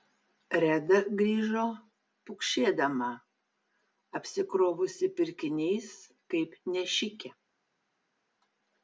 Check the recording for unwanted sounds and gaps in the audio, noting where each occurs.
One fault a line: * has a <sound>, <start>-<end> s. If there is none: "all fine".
all fine